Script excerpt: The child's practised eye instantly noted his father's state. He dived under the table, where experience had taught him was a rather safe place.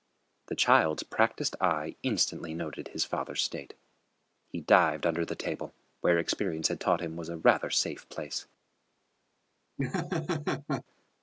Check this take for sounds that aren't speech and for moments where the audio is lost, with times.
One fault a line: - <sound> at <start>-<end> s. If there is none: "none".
- laugh at 9.8-10.8 s